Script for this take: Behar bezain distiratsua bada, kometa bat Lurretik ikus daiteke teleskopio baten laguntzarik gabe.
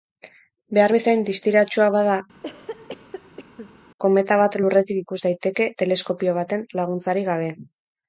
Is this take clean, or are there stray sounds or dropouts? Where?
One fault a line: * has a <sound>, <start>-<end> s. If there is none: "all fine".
* has a cough, 2.3-3.8 s